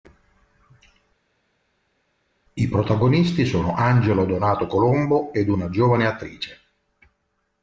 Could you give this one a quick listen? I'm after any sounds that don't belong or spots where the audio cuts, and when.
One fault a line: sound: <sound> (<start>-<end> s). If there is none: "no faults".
no faults